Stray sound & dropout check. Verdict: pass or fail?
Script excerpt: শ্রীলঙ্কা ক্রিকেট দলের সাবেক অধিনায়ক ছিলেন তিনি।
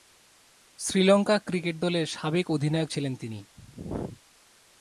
pass